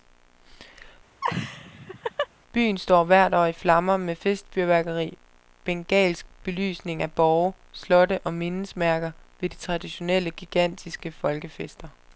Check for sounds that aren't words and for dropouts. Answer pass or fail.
fail